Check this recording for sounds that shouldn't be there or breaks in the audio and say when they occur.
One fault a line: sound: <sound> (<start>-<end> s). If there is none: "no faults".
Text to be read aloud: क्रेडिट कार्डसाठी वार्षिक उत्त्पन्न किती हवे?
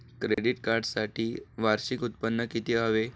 sound: dropout (0.3-0.4 s)